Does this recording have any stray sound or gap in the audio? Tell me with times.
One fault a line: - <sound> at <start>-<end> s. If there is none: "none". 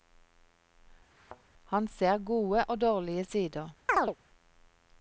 - thud at 1.1-1.4 s
- chirp at 3.9-4.2 s